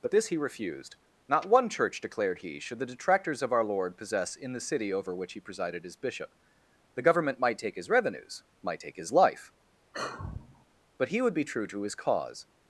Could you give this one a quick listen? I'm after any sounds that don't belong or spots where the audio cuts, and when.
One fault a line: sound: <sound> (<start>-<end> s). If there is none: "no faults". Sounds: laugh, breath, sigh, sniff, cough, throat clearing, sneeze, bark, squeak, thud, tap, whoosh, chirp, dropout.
sound: sigh (9.9-10.7 s)